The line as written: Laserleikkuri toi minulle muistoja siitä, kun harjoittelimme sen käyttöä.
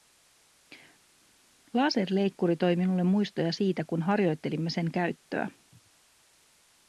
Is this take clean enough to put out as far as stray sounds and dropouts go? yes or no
yes